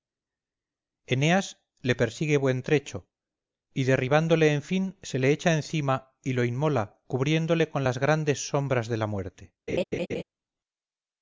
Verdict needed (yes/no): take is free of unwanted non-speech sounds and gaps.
no